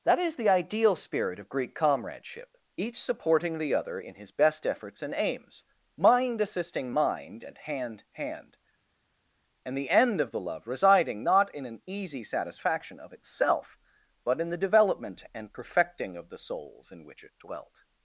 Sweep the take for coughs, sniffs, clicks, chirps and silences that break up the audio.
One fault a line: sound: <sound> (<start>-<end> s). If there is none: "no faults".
no faults